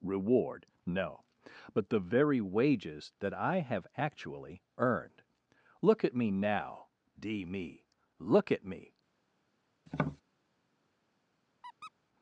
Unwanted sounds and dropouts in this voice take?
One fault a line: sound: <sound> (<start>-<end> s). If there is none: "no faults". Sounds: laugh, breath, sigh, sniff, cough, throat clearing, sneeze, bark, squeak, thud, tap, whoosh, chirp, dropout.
sound: tap (9.9-10.2 s)
sound: squeak (11.6-11.9 s)